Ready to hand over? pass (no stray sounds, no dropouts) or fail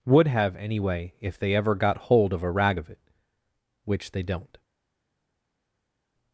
pass